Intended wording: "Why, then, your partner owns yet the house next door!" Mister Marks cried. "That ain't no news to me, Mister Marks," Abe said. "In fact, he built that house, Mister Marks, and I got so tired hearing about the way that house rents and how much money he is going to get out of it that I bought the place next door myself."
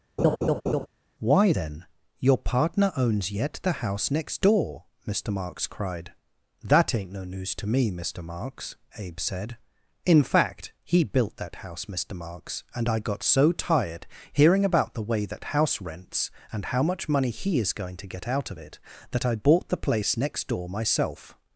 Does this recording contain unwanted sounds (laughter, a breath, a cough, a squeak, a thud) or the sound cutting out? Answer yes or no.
yes